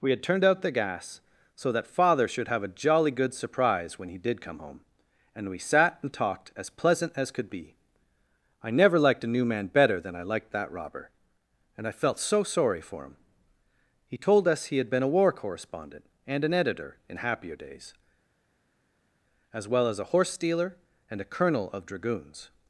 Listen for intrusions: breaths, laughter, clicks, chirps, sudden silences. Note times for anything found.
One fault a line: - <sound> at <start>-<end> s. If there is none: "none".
none